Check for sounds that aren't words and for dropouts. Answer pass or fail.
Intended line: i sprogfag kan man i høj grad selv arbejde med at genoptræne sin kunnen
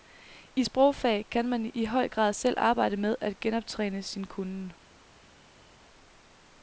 pass